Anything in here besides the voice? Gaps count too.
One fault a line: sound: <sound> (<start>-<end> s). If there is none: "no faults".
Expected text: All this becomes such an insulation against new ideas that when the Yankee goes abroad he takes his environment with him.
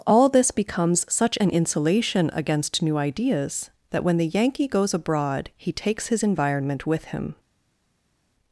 no faults